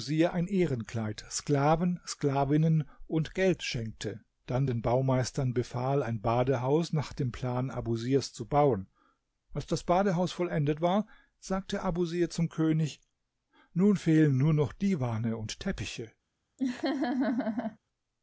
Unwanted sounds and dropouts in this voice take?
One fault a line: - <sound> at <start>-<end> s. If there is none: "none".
- laugh at 16.6-17.8 s